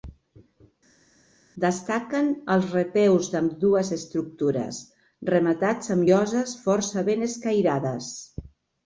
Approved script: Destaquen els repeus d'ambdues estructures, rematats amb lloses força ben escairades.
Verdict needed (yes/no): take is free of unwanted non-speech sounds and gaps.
yes